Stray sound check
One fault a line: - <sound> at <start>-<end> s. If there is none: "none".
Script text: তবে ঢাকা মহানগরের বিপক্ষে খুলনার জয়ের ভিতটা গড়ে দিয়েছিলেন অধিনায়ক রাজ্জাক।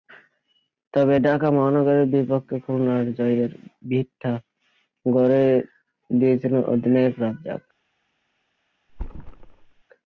- thud at 8.9-9.8 s